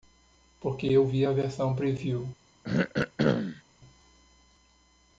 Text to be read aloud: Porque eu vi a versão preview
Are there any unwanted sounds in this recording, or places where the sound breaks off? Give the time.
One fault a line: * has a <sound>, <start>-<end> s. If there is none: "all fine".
* has a throat clearing, 2.6-3.6 s